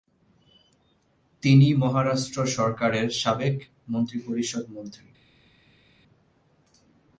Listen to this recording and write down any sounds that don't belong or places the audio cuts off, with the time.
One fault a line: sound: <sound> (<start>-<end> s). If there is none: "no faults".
no faults